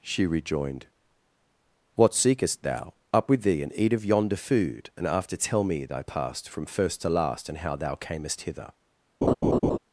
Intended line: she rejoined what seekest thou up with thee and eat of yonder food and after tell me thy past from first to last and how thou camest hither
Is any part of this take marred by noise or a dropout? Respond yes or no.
yes